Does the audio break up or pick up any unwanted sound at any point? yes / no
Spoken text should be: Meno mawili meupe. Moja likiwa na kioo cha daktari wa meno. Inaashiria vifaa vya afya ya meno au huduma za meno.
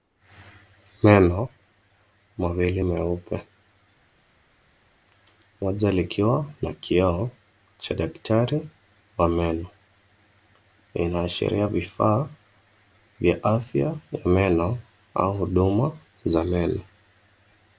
no